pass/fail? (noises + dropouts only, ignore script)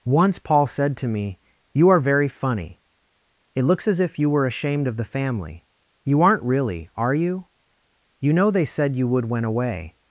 pass